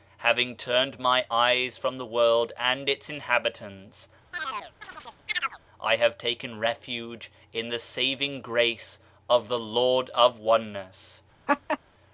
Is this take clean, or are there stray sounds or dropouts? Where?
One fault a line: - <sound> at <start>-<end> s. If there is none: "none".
- chirp at 4.3-5.6 s
- laugh at 11.5-11.8 s